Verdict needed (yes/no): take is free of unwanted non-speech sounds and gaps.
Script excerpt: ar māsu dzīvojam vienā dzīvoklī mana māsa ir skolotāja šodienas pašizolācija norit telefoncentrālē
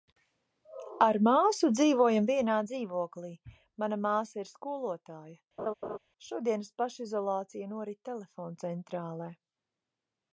no